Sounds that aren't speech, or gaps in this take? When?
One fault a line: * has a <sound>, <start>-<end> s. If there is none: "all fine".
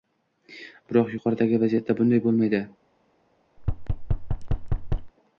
* has a thud, 3.6-5.1 s